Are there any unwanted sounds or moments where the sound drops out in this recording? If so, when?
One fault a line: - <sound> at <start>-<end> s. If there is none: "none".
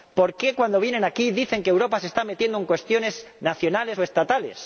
none